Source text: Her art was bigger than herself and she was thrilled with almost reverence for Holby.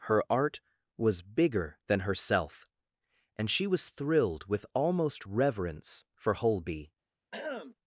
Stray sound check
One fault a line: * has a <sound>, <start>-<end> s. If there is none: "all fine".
* has a throat clearing, 7.3-7.7 s